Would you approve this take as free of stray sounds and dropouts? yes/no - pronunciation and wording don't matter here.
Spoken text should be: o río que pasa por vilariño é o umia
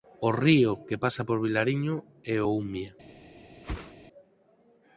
no